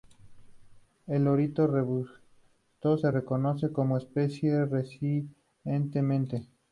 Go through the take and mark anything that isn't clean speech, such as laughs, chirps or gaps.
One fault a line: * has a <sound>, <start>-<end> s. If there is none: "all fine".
all fine